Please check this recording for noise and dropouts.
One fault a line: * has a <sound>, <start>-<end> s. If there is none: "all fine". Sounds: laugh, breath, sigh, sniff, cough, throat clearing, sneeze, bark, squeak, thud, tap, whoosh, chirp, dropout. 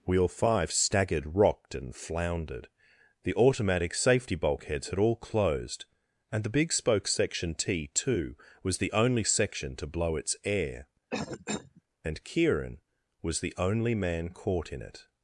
* has a cough, 11.1-11.8 s